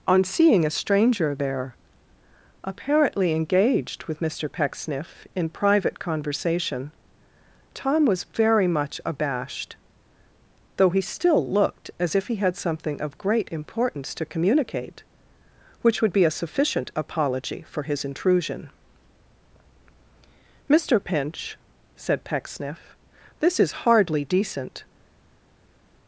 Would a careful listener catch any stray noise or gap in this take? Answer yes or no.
no